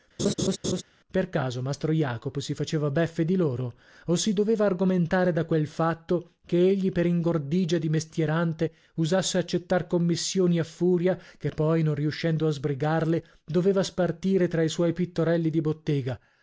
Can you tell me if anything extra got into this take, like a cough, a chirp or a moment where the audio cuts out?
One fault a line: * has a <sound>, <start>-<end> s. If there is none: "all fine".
* has a laugh, 0.2-0.8 s